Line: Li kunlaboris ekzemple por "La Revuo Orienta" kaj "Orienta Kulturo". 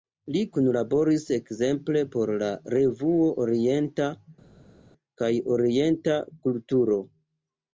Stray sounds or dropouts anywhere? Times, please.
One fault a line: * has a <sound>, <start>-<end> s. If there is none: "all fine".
all fine